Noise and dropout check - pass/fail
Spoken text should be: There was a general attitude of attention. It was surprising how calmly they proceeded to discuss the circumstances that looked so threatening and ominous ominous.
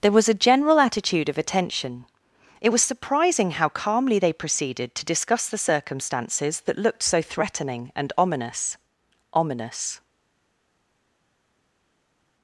pass